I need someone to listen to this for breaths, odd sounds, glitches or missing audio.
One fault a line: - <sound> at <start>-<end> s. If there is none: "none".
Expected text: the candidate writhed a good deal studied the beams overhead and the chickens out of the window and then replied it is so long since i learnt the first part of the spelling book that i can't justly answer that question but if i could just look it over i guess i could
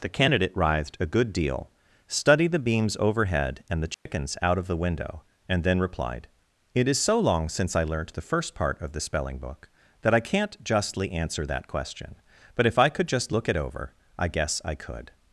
- dropout at 3.9-4.1 s